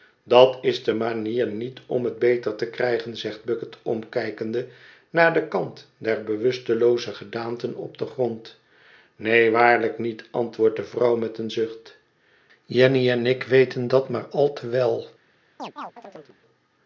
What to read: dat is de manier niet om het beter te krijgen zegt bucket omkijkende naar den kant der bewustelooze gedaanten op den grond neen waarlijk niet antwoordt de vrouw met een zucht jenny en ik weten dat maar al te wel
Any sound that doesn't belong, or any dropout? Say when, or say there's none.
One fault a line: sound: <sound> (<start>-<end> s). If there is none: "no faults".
sound: chirp (15.6-16.4 s)